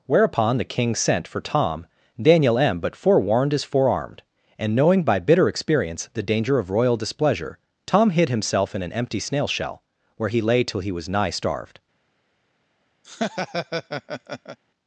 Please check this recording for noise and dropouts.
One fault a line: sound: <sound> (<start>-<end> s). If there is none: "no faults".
sound: laugh (13.0-14.6 s)